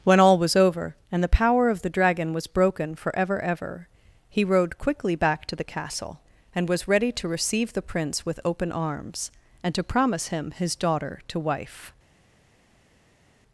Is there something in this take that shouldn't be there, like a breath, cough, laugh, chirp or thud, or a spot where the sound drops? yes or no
no